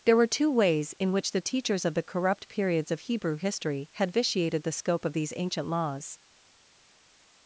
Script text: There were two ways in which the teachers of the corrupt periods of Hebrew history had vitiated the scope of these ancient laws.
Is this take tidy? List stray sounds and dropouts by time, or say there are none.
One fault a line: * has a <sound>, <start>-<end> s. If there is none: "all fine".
all fine